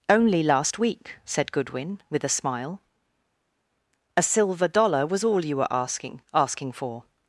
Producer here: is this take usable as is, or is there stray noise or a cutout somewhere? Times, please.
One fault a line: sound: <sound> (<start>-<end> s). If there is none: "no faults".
no faults